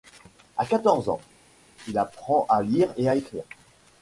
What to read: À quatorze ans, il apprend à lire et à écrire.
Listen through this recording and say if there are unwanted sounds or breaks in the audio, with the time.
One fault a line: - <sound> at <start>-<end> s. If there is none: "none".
none